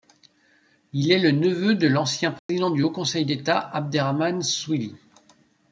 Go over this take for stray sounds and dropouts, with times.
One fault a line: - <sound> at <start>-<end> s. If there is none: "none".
- dropout at 2.4-2.5 s